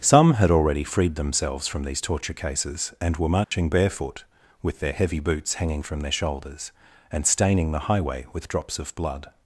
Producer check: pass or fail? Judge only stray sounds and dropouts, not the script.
fail